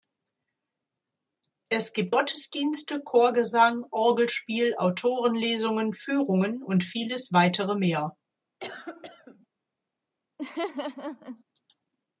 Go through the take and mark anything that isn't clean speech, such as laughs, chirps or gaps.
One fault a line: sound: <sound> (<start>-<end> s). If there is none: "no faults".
sound: cough (8.6-9.5 s)
sound: laugh (10.4-11.4 s)